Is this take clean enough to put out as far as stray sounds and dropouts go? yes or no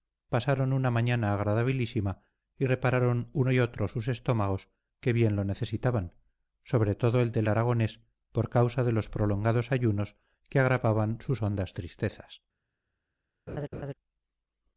no